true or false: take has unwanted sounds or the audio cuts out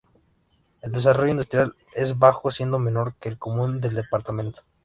false